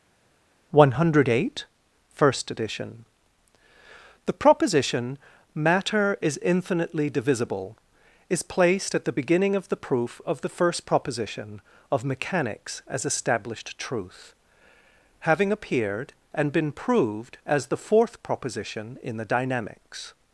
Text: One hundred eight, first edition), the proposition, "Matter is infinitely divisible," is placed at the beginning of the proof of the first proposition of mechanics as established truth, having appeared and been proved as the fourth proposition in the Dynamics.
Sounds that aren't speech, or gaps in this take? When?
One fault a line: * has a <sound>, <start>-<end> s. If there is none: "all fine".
all fine